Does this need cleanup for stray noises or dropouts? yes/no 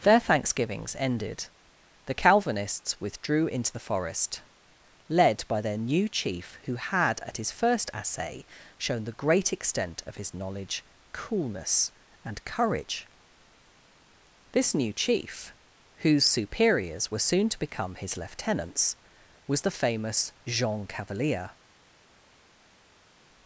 no